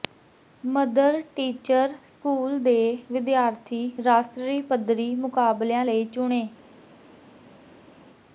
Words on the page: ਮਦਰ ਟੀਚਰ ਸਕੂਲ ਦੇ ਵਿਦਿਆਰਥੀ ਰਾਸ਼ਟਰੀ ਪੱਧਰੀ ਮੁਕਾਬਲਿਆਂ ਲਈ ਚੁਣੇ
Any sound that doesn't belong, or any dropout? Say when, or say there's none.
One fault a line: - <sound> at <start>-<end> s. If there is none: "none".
none